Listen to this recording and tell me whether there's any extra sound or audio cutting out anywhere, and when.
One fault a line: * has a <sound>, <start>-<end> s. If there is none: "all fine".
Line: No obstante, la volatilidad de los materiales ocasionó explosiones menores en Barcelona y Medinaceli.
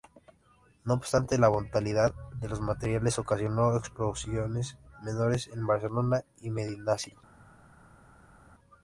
all fine